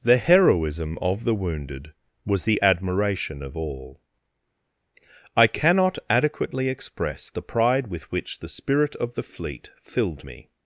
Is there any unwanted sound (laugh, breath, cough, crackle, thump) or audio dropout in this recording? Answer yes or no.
no